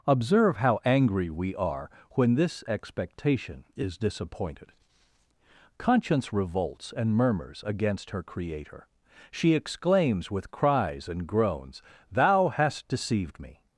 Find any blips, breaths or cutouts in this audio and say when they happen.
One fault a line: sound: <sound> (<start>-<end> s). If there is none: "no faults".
no faults